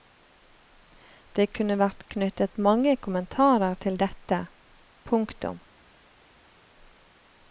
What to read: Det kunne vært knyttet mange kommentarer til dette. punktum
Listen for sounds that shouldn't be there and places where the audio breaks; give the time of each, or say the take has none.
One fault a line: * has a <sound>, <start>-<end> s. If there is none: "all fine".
all fine